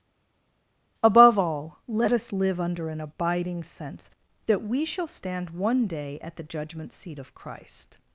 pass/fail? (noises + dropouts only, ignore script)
pass